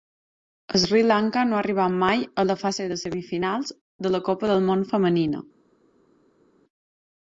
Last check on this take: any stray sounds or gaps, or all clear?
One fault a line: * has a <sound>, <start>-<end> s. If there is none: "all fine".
all fine